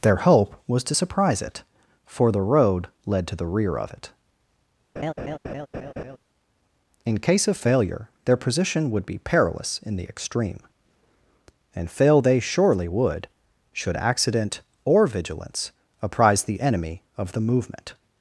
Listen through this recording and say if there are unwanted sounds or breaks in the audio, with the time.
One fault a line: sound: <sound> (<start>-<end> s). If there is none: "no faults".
sound: laugh (5.0-6.2 s)